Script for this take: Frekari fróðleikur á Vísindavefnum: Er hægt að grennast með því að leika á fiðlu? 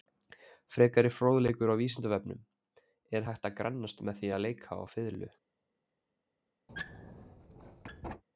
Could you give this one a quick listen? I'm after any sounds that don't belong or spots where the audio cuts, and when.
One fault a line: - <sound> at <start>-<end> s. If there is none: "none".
- squeak at 6.7-8.2 s